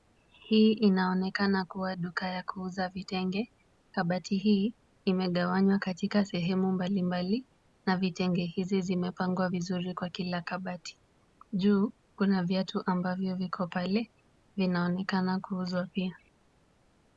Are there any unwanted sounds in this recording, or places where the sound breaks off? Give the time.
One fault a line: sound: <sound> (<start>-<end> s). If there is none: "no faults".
no faults